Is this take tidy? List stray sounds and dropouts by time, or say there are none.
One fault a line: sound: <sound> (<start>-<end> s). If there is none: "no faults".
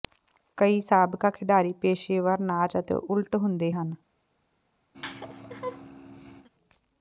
sound: laugh (4.9-6.5 s)